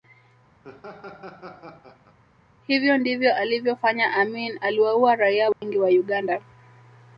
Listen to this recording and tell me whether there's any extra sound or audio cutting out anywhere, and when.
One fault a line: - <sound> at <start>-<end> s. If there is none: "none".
- laugh at 0.6-2.2 s
- dropout at 5.5-5.6 s